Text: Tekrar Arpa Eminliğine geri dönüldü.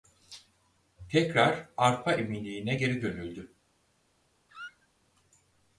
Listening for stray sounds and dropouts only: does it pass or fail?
fail